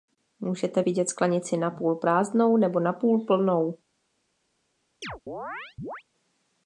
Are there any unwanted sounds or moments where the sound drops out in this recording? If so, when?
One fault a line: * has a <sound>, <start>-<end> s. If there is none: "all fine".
* has a chirp, 5.0-6.0 s